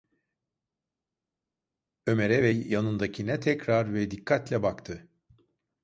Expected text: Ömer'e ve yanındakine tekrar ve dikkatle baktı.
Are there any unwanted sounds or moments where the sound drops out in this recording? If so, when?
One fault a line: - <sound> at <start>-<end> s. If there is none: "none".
none